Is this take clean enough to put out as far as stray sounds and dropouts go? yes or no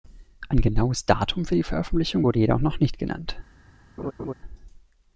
no